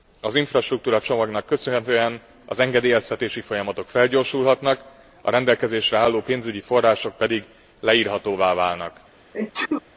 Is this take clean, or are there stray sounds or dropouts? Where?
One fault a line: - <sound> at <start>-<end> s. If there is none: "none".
- sneeze at 9.3-9.8 s